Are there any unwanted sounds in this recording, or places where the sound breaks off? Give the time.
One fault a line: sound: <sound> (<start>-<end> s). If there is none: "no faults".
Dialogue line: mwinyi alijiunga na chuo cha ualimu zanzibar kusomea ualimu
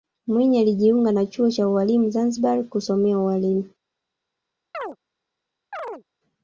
sound: chirp (4.7-5.0 s)
sound: chirp (5.7-6.0 s)